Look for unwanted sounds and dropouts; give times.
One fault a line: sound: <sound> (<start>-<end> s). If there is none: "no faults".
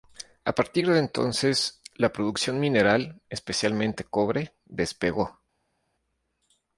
no faults